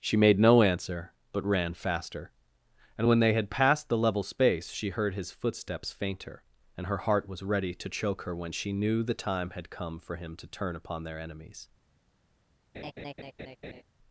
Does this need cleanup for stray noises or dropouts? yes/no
yes